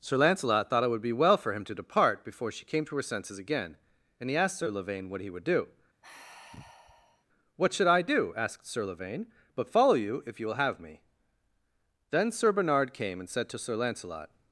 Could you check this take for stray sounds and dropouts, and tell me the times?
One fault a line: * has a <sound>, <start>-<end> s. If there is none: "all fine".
* has a sigh, 6.0-7.3 s